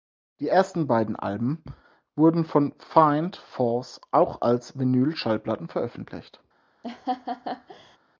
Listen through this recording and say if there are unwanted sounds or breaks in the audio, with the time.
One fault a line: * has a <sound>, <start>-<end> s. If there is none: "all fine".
* has a laugh, 6.8-8.0 s